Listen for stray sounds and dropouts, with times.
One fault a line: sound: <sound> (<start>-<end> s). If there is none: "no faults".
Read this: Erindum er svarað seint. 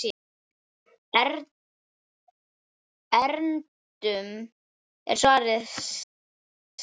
no faults